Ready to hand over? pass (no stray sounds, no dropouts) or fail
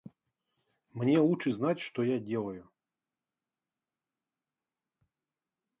pass